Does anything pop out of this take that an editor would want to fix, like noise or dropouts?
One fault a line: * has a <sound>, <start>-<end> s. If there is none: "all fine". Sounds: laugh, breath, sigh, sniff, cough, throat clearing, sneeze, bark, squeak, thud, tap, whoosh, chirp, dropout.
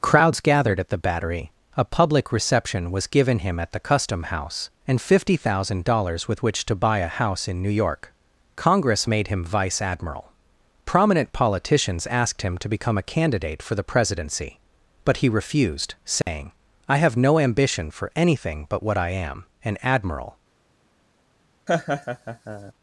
* has a dropout, 16.2-16.3 s
* has a laugh, 21.7-22.7 s